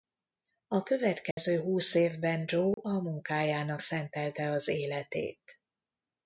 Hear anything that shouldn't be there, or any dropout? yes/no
yes